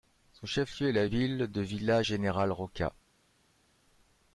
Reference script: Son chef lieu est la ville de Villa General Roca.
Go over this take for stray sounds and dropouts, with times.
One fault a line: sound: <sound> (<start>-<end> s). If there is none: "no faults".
no faults